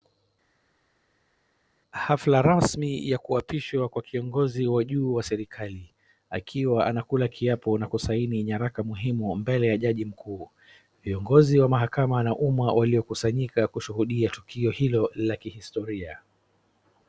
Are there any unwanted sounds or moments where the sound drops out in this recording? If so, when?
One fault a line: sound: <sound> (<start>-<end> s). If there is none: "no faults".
no faults